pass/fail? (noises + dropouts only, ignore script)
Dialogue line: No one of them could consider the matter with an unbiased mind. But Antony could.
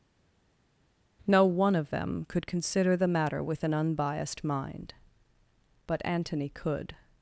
pass